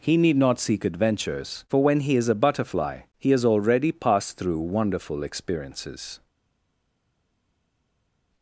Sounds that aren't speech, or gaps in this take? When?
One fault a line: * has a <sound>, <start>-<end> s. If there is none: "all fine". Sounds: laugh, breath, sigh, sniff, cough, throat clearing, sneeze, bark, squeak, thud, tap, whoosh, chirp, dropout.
all fine